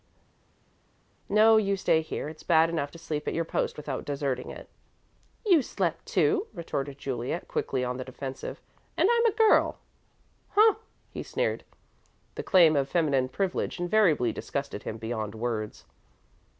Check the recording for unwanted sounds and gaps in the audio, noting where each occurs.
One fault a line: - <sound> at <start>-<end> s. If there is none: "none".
none